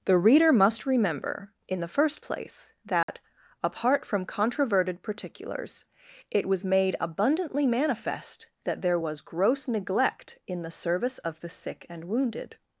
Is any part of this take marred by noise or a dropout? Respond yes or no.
yes